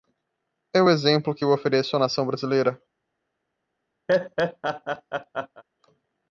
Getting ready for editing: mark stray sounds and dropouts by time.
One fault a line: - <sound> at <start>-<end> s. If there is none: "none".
- laugh at 4.1-5.6 s